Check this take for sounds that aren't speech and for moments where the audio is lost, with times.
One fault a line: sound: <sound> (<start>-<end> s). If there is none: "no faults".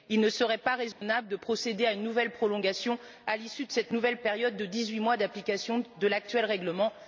sound: dropout (0.9-1.0 s)